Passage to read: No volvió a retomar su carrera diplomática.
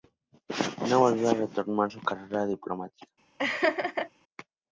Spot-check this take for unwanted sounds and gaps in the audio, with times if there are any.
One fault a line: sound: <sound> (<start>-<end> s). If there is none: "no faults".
sound: laugh (3.4-4.1 s)